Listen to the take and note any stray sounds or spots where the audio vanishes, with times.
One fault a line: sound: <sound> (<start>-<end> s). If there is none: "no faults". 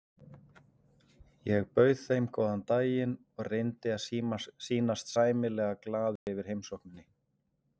sound: dropout (6.2-6.3 s)